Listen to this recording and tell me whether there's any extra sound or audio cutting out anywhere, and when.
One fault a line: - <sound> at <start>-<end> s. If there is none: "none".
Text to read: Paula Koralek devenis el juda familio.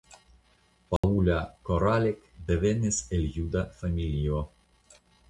- dropout at 1.0-1.0 s